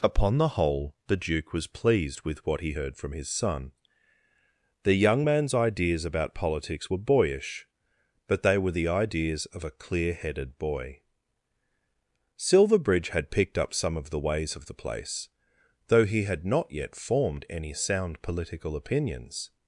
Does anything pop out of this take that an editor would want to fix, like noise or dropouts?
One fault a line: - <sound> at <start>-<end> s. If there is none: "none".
none